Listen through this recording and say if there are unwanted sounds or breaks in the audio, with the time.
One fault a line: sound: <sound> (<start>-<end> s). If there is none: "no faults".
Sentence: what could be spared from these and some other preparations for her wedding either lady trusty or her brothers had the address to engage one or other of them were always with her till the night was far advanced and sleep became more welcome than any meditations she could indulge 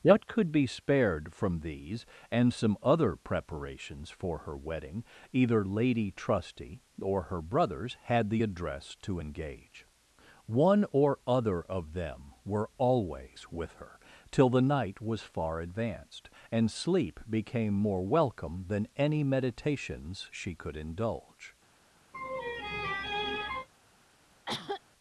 sound: laugh (22.1-23.7 s)
sound: cough (24.5-24.8 s)